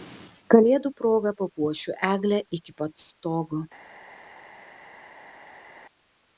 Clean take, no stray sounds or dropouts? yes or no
yes